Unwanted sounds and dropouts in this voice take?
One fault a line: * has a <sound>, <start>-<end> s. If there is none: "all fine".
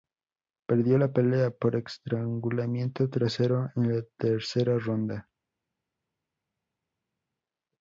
all fine